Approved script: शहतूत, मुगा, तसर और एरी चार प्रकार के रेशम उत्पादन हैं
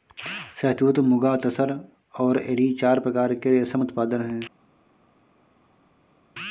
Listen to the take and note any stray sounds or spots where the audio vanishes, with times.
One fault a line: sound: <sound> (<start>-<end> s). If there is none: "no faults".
no faults